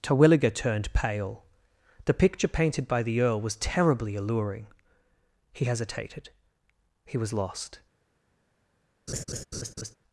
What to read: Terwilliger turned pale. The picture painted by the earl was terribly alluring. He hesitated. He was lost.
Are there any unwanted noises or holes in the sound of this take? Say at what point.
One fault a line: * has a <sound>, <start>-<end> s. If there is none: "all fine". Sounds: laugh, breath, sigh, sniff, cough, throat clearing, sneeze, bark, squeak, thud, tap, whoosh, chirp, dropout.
* has a laugh, 9.1-10.0 s